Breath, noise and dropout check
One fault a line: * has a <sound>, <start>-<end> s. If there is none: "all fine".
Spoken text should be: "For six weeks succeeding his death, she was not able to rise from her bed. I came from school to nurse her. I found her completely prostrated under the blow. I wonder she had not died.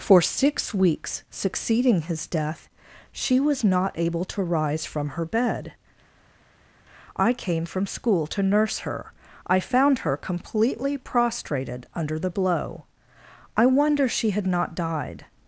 all fine